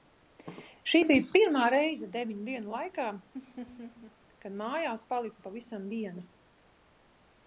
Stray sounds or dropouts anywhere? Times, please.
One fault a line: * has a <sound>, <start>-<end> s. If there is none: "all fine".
* has a laugh, 3.3-4.2 s